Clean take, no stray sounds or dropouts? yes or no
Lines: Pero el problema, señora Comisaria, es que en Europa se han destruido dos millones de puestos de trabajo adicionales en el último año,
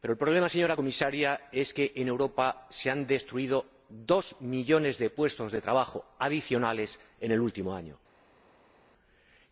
yes